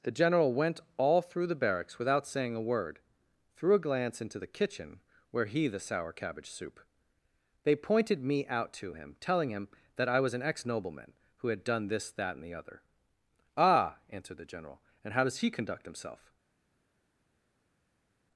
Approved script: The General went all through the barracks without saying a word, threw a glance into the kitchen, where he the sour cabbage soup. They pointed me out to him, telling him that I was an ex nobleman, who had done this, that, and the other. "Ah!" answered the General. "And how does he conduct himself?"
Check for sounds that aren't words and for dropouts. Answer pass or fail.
pass